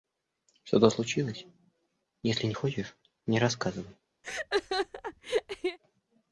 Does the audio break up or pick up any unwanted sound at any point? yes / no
yes